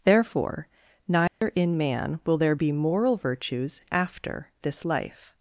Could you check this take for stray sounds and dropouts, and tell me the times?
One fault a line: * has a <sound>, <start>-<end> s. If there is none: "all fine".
* has a dropout, 1.3-1.4 s